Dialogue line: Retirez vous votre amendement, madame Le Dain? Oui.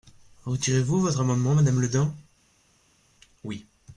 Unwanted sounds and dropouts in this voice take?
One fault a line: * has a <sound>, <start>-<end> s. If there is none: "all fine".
all fine